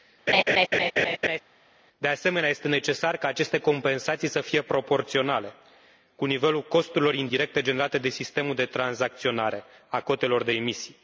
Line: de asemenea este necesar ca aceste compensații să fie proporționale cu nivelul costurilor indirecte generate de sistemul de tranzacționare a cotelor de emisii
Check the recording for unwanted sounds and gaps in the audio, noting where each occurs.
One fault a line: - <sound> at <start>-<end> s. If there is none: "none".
- laugh at 0.3-1.4 s